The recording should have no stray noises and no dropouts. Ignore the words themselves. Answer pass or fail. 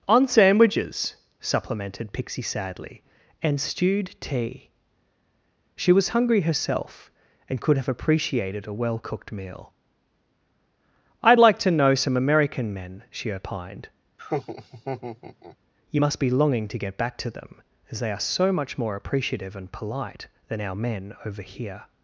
fail